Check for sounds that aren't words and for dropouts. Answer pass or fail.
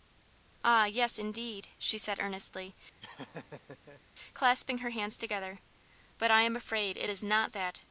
fail